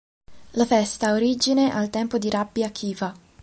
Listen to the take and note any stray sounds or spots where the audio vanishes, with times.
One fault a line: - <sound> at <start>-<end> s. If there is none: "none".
none